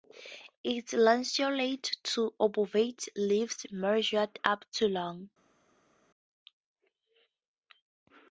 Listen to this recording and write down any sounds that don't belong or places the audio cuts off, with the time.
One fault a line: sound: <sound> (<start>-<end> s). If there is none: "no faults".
no faults